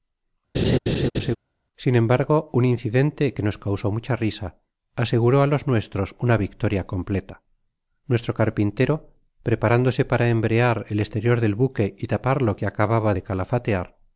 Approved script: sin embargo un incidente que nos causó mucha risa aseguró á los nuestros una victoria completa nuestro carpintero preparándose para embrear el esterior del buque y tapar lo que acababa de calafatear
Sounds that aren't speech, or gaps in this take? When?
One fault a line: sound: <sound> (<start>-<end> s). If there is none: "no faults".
sound: laugh (0.5-1.4 s)